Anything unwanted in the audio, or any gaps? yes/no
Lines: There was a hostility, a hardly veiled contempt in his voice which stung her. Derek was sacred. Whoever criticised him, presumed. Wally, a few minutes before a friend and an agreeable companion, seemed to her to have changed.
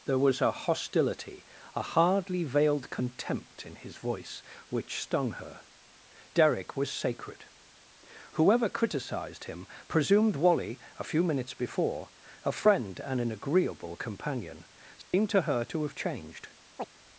yes